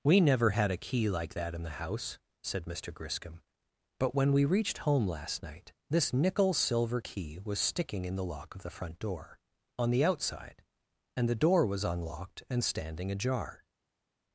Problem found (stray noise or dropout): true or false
false